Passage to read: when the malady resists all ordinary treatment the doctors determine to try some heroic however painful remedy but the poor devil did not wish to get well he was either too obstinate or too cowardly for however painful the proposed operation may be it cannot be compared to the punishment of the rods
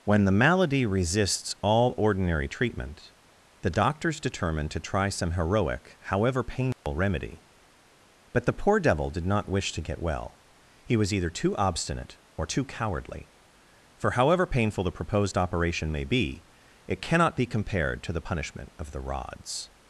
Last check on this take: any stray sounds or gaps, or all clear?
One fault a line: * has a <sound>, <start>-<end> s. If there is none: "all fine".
* has a dropout, 6.7-6.9 s